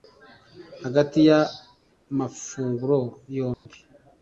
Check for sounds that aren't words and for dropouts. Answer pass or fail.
fail